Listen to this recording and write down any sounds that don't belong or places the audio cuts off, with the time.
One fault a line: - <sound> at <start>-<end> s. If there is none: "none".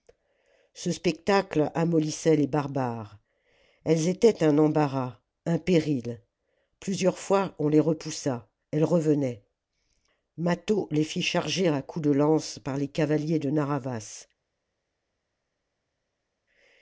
none